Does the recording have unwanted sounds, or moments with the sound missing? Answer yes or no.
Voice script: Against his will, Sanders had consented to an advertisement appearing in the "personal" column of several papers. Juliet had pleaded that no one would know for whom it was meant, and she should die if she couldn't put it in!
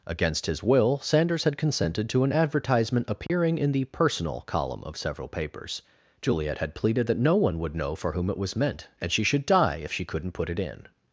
yes